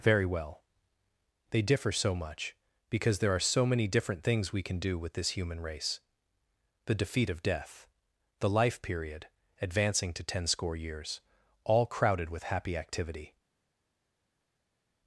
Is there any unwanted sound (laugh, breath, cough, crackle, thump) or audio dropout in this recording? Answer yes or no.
no